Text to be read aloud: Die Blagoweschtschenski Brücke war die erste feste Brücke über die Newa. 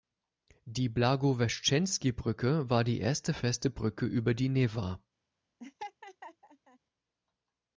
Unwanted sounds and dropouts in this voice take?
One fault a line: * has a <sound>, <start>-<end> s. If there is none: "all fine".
* has a laugh, 5.6-6.8 s